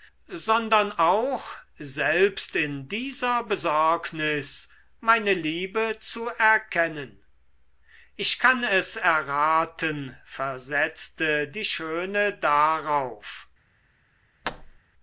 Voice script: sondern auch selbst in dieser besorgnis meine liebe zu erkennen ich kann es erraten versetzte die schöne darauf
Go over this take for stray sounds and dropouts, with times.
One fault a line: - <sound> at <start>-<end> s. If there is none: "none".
- thud at 14.4-14.8 s